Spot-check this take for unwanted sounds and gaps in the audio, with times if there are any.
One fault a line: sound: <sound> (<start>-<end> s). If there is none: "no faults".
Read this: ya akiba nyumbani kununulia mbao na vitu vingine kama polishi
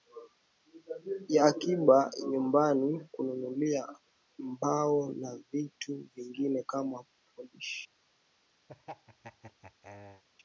sound: laugh (8.7-10.2 s)